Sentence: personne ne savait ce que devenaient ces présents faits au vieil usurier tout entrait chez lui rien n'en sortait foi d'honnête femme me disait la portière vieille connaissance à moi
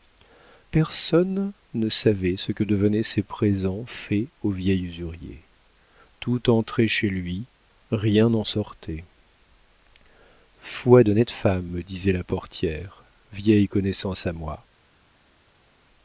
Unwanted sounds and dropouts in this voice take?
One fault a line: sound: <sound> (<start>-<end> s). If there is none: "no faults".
no faults